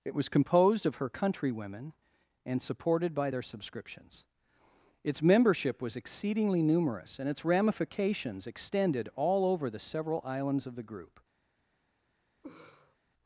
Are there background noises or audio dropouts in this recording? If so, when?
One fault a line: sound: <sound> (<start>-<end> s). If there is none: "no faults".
sound: laugh (12.4-13.0 s)